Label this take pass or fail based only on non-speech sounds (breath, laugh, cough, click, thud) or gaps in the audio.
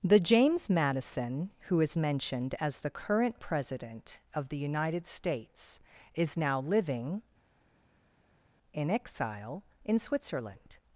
pass